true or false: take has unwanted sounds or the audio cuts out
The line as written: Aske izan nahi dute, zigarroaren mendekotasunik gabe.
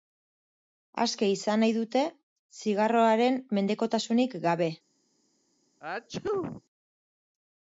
true